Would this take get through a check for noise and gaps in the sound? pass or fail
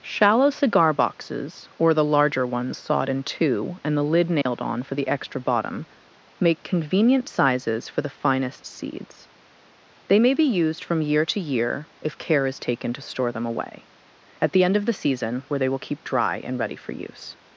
fail